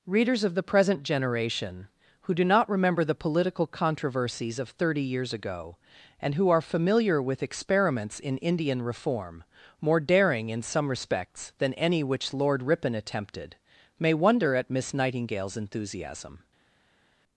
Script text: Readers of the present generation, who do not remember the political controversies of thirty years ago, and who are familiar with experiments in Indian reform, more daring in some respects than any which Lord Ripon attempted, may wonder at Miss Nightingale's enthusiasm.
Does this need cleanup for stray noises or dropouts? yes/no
no